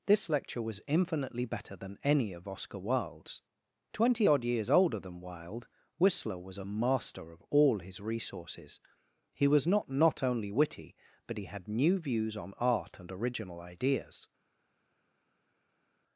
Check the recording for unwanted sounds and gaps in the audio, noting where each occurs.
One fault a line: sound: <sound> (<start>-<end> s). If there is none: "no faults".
no faults